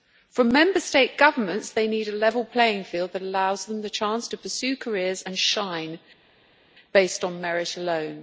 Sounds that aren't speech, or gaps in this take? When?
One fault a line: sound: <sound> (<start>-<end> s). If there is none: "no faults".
no faults